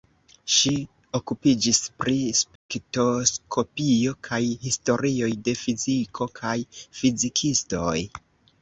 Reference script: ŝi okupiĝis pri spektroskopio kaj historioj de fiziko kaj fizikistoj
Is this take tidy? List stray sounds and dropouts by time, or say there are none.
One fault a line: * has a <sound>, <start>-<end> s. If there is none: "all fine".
* has a dropout, 2.6-2.7 s